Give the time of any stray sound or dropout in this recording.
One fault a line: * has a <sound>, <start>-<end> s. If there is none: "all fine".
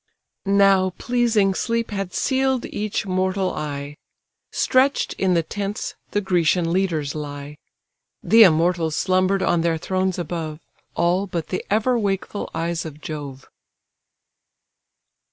all fine